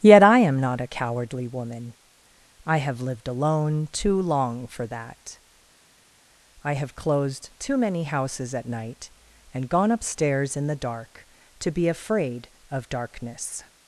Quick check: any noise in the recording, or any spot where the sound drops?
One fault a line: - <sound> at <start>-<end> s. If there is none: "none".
none